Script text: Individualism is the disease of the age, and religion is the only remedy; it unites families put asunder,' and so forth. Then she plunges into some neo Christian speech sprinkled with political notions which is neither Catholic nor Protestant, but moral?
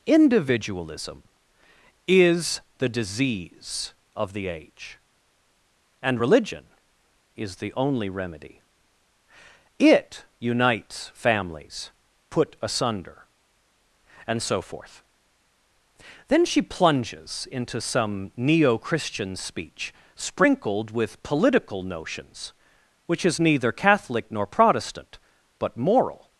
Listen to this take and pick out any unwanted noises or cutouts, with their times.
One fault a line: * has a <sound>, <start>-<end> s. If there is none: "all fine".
all fine